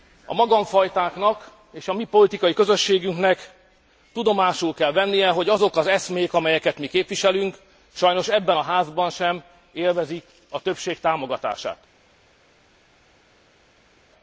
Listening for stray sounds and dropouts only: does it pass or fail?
pass